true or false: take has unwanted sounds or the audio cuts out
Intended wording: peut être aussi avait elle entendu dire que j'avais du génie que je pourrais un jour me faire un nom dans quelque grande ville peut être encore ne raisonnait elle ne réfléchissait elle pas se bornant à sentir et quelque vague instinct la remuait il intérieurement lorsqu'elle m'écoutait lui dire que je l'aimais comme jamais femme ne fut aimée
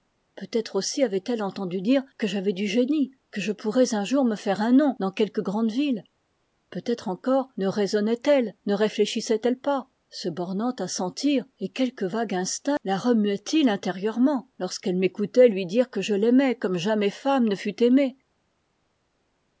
false